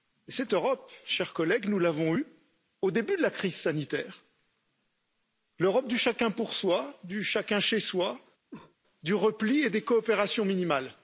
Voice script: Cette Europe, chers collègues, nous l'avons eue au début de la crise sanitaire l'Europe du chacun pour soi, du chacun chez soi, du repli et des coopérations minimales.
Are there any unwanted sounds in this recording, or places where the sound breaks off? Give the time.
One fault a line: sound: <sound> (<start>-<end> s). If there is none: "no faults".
sound: cough (8.5-8.8 s)